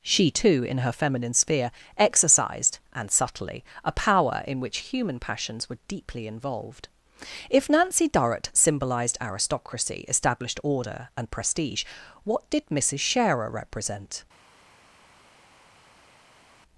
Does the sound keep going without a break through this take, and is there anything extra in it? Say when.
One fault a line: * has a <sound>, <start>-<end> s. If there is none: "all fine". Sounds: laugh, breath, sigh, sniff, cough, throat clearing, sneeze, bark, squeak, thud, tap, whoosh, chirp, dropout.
all fine